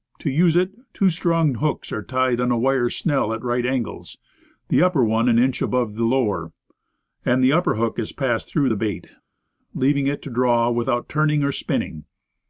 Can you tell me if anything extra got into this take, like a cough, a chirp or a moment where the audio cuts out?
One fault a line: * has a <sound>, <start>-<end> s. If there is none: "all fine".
all fine